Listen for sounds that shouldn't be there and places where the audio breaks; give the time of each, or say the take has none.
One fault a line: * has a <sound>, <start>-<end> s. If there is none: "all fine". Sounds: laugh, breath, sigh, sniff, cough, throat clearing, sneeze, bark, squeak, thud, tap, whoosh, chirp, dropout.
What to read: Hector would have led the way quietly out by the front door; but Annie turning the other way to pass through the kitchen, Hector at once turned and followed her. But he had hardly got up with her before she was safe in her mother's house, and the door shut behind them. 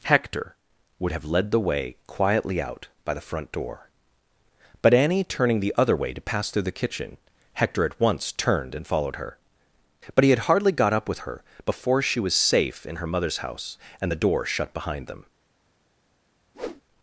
* has a whoosh, 16.5-16.8 s